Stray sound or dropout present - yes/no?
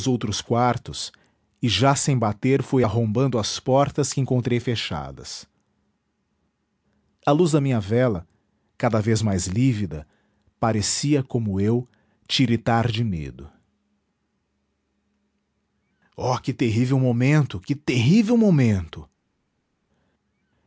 no